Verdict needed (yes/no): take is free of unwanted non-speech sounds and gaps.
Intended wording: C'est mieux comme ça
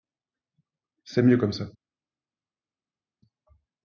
yes